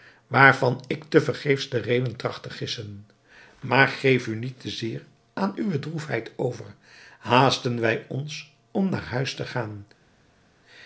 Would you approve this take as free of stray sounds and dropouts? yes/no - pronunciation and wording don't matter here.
yes